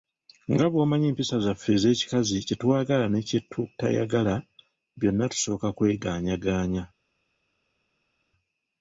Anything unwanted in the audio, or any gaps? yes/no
no